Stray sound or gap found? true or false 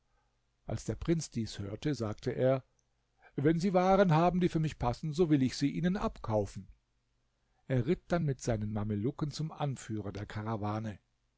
false